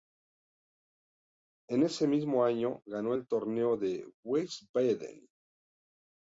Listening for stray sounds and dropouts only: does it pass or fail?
pass